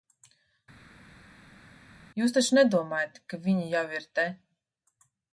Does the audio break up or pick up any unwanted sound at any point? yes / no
no